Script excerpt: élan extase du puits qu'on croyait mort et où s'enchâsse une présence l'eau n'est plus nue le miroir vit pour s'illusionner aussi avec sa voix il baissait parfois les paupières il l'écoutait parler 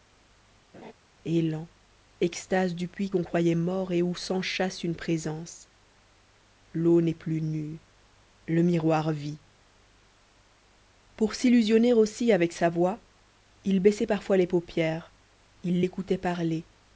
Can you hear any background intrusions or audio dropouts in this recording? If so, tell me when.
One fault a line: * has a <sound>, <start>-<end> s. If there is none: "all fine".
* has a laugh, 0.7-0.9 s